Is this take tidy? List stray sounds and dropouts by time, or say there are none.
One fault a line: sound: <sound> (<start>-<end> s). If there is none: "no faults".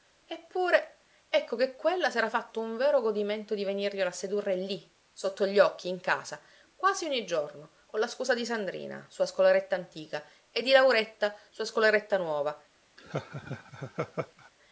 sound: laugh (13.0-14.5 s)